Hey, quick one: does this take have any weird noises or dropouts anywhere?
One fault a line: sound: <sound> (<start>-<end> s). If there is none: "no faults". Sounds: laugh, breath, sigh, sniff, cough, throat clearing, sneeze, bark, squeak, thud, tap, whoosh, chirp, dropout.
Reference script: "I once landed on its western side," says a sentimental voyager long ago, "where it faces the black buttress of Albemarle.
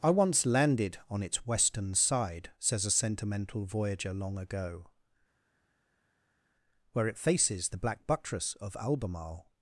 no faults